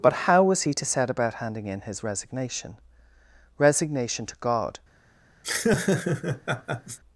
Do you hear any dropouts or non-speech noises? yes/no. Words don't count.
yes